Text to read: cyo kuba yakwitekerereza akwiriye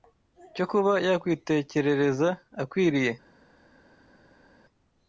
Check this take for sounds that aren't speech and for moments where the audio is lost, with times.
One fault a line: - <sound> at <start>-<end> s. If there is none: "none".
none